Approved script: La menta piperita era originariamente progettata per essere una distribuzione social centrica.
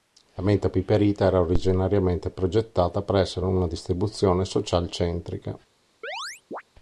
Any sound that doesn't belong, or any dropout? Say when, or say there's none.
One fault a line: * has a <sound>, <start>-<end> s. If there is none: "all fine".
* has a chirp, 6.0-6.6 s